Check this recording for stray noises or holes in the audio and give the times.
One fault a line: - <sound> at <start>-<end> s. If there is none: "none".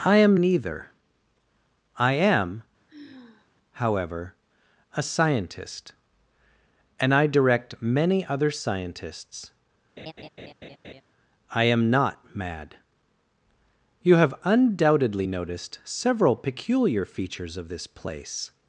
- sigh at 2.9-3.5 s
- laugh at 10.0-11.0 s